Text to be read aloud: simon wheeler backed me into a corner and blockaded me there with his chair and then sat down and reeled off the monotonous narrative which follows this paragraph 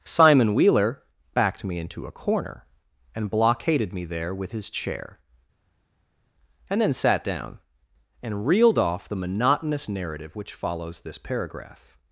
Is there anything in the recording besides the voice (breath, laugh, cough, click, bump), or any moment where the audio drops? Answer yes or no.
no